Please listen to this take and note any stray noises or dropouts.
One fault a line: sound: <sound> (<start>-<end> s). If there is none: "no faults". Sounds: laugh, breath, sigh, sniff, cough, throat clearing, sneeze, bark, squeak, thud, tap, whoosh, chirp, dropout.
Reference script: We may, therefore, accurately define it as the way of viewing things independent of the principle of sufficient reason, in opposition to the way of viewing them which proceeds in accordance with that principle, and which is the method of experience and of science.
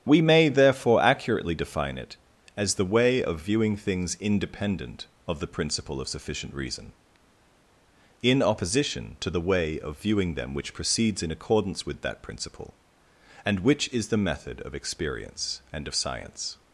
no faults